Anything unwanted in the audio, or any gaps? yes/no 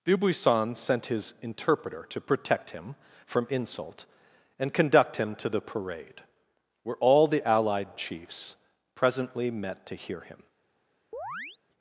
yes